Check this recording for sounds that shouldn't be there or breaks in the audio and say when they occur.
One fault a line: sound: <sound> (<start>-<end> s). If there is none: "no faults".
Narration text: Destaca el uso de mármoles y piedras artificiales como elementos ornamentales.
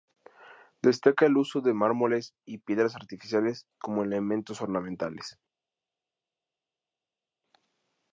no faults